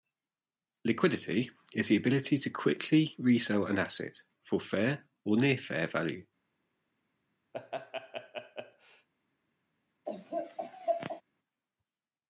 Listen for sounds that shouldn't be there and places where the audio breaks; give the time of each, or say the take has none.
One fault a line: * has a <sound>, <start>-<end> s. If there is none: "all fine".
* has a laugh, 7.5-9.1 s
* has a laugh, 10.1-11.2 s